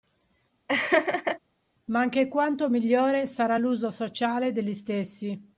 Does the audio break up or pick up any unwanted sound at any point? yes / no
yes